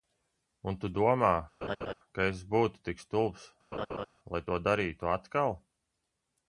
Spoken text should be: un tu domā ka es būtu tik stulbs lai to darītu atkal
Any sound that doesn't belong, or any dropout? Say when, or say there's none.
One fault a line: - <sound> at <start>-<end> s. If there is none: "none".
- laugh at 1.6-1.9 s
- laugh at 3.7-4.1 s